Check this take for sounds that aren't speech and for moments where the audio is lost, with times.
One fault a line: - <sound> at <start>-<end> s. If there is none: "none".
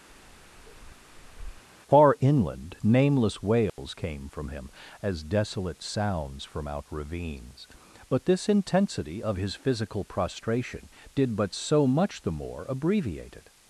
- bark at 0.1-1.6 s
- dropout at 3.7-3.8 s